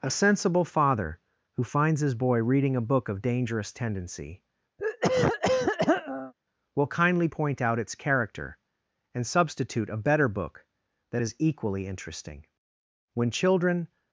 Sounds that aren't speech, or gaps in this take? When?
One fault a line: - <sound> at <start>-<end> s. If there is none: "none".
- throat clearing at 4.8-6.3 s